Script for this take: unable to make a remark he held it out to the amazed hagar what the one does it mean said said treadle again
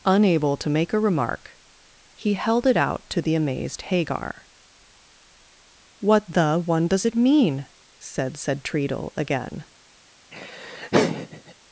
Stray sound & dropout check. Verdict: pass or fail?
fail